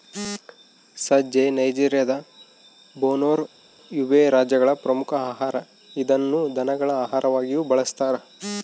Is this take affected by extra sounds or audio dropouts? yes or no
no